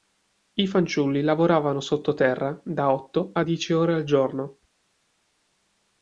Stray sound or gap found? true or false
false